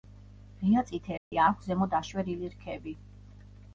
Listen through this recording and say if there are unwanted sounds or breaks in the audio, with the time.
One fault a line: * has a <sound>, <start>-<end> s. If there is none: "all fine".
* has a dropout, 1.2-1.3 s